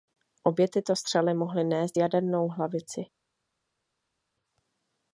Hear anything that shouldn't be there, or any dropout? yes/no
no